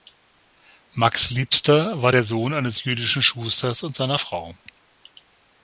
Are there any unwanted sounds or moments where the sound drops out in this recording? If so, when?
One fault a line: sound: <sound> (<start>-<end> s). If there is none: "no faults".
no faults